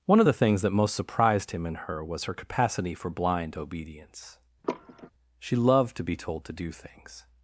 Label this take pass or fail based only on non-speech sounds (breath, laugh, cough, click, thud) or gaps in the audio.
fail